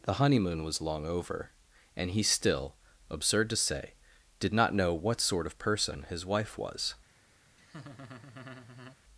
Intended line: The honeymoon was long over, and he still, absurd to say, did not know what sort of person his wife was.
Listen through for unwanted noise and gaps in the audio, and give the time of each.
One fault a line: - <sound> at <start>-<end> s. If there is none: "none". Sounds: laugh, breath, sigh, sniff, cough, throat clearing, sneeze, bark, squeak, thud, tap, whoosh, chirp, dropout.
- laugh at 7.6-9.0 s